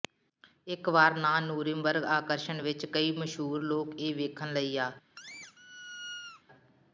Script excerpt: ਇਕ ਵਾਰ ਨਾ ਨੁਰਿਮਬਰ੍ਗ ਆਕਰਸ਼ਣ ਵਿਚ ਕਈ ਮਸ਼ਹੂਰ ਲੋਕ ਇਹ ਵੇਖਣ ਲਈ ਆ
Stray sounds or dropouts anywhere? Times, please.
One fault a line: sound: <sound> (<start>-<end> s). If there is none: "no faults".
sound: squeak (5.2-6.4 s)